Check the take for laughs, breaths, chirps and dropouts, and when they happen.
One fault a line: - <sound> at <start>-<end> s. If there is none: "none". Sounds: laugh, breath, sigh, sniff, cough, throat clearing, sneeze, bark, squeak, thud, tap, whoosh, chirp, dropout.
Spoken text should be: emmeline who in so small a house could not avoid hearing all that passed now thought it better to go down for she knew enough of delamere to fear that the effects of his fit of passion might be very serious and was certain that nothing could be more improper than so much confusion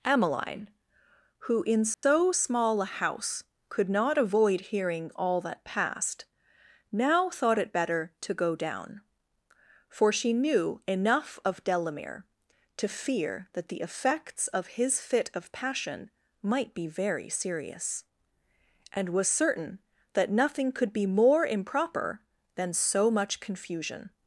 - dropout at 1.9-2.0 s